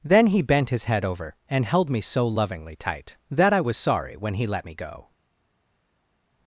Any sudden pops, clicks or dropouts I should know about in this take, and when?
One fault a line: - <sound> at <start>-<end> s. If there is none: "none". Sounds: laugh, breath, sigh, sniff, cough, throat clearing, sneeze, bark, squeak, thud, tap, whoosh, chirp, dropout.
none